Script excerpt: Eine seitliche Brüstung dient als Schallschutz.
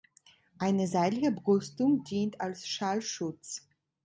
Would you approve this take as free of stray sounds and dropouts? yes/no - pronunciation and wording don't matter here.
yes